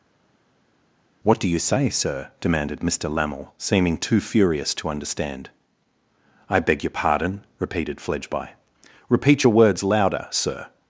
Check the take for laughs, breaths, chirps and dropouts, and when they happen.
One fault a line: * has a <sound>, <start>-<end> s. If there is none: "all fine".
all fine